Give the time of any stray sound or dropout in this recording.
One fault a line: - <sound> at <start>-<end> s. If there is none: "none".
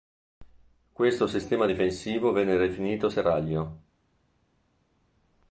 none